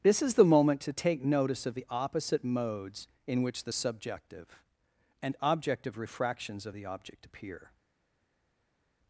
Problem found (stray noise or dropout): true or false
false